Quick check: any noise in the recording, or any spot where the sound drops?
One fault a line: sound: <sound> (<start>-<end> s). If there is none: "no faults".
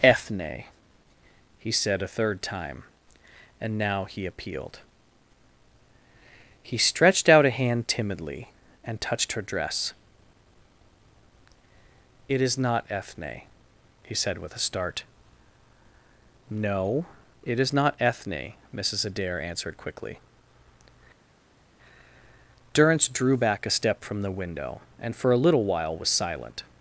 no faults